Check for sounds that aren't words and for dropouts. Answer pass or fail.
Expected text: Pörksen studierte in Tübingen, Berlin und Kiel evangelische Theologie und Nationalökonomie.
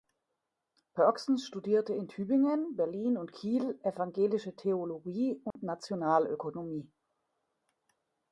fail